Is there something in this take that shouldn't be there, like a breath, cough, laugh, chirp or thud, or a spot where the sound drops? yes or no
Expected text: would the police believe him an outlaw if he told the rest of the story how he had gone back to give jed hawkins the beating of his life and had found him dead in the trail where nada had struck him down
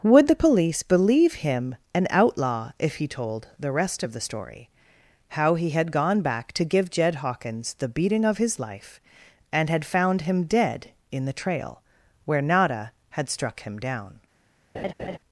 yes